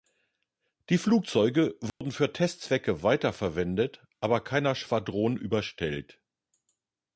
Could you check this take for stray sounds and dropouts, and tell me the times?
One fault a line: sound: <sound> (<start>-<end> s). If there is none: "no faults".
sound: dropout (1.9-2.0 s)